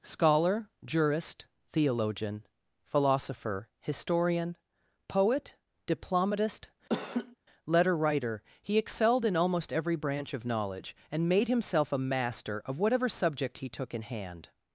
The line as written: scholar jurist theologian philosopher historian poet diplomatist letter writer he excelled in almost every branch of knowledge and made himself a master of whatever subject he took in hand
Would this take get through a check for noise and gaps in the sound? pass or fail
fail